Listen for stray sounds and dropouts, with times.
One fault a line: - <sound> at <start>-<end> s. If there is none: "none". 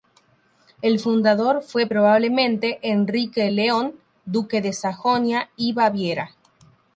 none